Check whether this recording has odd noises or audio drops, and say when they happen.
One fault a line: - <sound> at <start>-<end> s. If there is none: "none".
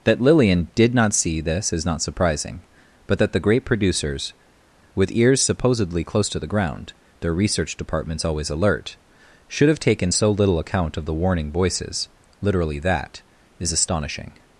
none